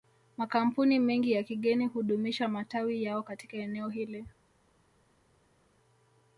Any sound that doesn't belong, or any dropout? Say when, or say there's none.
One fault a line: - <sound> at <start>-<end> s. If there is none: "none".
none